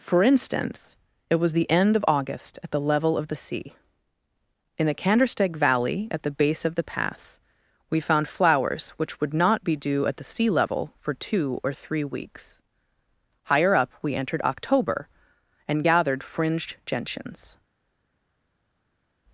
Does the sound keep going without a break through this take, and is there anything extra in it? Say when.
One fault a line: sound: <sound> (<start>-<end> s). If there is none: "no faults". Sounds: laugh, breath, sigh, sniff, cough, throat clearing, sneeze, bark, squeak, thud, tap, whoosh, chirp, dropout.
no faults